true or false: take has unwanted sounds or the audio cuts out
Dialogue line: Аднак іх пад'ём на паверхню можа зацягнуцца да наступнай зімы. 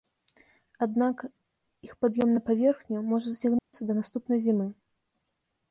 true